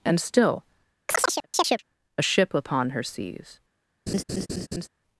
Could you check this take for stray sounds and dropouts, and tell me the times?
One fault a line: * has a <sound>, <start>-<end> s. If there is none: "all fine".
* has a chirp, 1.1-1.8 s
* has a laugh, 4.1-4.9 s